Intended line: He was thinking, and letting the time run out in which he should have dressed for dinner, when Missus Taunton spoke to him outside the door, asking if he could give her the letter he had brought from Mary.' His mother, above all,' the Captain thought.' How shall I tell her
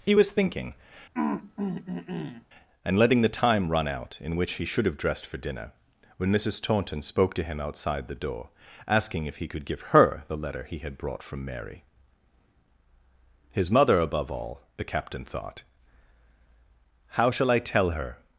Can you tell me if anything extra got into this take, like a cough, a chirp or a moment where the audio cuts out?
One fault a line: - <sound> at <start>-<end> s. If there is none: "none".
- throat clearing at 1.1-2.5 s